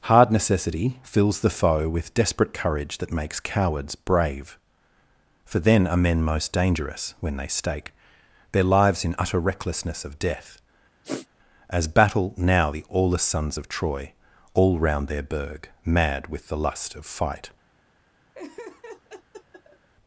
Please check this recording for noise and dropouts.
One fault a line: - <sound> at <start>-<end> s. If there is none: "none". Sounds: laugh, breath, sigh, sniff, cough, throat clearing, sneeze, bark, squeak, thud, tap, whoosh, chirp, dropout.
- sniff at 11.0-11.3 s
- laugh at 18.3-19.9 s